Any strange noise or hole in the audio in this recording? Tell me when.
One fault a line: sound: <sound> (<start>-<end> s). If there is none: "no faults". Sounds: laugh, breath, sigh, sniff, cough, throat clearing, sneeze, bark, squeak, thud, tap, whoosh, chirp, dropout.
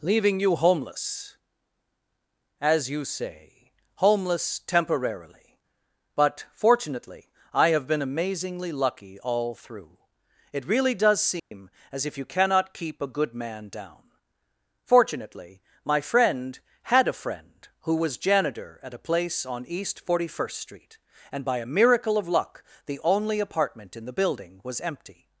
sound: dropout (11.4-11.5 s)